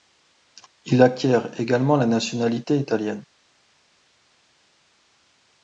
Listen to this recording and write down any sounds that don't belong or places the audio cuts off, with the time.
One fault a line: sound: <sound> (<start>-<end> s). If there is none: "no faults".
no faults